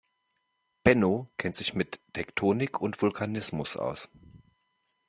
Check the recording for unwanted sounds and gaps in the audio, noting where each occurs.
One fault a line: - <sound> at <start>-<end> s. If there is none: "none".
none